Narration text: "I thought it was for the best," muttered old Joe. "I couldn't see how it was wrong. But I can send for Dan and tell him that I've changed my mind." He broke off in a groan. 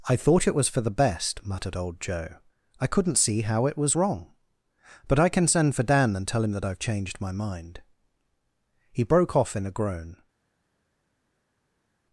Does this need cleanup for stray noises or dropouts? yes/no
no